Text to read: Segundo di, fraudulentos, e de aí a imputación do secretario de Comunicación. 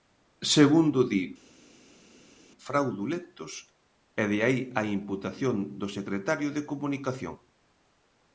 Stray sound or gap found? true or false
false